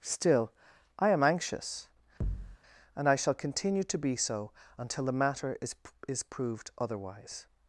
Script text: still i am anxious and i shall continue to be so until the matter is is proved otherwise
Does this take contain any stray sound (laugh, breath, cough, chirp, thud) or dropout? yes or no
yes